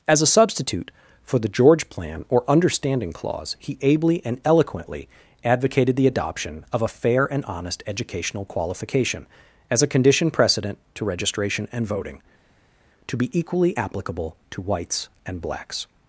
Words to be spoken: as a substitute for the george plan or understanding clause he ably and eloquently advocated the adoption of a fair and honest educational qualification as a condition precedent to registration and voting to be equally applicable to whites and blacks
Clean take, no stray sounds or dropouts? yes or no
yes